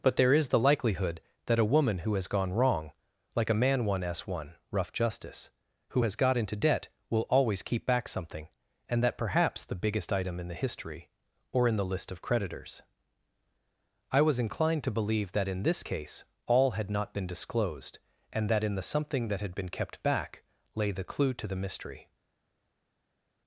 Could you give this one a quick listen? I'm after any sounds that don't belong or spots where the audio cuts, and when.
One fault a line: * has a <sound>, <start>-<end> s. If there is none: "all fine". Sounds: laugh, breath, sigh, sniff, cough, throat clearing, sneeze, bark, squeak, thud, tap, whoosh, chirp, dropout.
all fine